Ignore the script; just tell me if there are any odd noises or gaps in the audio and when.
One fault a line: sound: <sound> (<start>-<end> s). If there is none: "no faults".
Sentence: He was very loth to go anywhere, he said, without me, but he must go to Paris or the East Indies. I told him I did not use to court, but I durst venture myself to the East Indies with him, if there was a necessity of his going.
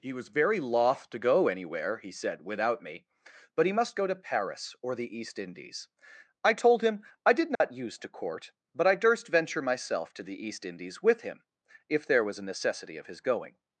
sound: dropout (7.5-7.6 s)